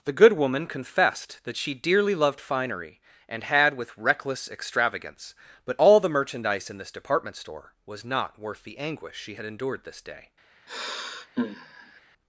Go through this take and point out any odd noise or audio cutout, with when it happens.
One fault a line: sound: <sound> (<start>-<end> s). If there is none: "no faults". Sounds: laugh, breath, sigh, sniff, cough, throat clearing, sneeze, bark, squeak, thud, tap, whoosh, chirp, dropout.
sound: sigh (10.7-12.0 s)